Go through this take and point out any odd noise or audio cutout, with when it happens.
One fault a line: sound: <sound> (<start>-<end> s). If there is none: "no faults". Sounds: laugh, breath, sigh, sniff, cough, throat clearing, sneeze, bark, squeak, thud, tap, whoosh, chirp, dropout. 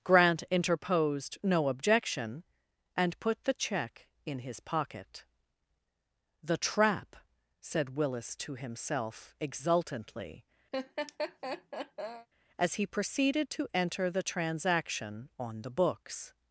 sound: laugh (10.7-12.3 s)